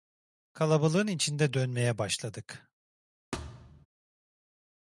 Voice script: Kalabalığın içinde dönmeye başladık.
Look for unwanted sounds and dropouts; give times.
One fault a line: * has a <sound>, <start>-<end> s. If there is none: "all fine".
* has a thud, 3.3-3.9 s